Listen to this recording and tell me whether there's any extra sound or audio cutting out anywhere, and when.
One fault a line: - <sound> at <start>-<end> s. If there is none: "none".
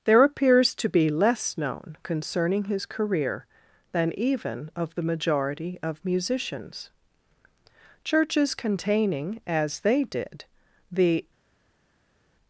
none